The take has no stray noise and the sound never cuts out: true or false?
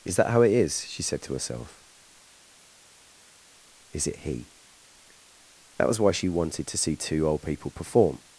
true